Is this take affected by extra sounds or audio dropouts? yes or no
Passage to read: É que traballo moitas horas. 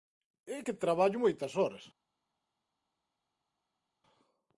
no